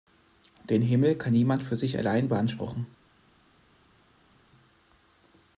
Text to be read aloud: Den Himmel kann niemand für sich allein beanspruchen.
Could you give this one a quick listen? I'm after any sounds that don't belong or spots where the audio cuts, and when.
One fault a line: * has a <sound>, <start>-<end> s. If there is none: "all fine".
all fine